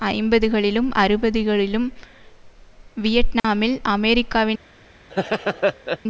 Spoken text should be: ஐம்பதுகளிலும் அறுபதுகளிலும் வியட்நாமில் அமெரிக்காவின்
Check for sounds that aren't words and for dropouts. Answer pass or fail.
fail